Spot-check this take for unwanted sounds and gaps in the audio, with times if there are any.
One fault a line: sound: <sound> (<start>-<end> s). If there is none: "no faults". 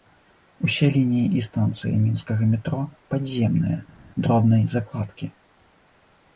no faults